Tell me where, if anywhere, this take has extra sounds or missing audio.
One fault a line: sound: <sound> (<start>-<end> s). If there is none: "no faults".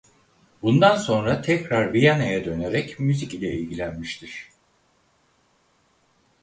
no faults